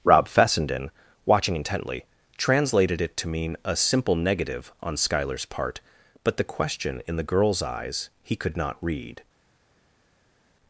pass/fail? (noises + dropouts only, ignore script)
pass